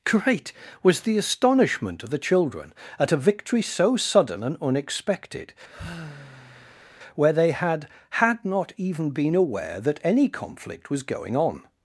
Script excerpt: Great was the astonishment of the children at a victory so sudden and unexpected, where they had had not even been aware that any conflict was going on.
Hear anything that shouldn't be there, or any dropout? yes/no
yes